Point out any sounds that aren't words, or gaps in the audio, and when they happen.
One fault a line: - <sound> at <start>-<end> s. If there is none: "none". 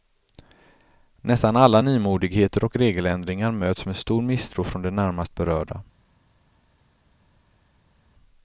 none